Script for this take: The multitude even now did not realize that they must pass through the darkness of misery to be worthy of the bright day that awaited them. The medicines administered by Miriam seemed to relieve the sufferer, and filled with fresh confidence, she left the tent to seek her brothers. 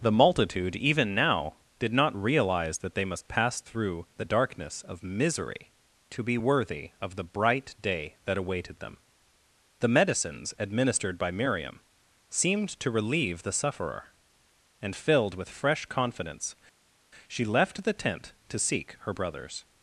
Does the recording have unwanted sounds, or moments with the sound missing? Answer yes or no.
no